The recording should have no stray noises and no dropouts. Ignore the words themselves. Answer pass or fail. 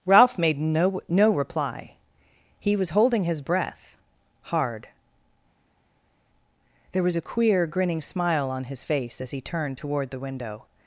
pass